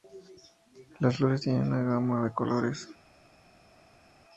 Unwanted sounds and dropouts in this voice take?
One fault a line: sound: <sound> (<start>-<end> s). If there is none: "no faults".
no faults